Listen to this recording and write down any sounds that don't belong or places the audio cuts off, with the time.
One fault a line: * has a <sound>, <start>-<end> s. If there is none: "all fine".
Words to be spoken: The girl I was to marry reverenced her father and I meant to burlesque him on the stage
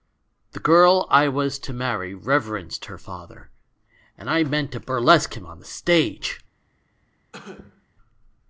* has a cough, 7.3-7.9 s